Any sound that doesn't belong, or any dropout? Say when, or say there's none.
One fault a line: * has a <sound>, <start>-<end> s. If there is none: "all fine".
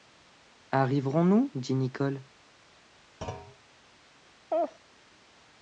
* has a thud, 3.2-3.6 s
* has a laugh, 4.5-4.8 s